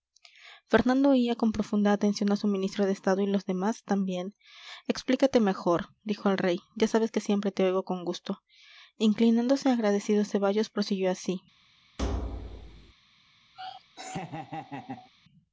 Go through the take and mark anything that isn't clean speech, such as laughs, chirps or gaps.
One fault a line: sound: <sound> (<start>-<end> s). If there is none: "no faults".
sound: thud (12.0-12.9 s)
sound: laugh (13.5-15.1 s)